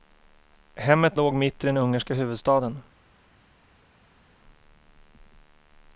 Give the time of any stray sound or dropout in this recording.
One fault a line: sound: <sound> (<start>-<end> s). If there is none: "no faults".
no faults